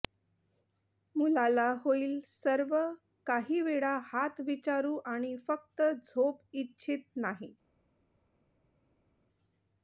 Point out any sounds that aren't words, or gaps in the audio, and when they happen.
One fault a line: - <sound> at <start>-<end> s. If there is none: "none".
none